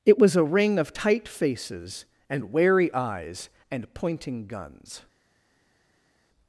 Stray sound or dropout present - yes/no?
no